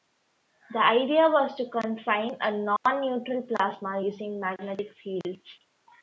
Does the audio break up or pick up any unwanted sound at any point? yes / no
yes